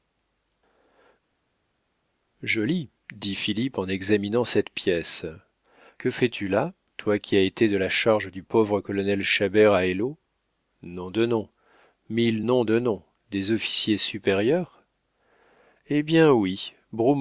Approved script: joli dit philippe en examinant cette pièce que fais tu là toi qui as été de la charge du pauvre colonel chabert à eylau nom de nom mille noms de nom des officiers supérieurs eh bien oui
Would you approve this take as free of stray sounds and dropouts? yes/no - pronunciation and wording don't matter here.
yes